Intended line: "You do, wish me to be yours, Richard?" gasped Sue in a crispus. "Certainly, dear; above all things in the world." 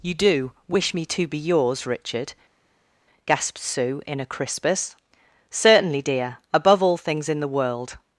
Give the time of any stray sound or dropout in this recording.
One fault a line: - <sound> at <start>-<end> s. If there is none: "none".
none